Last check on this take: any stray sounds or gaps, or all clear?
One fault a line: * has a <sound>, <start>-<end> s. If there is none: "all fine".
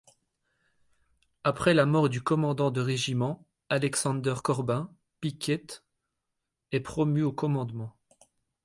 all fine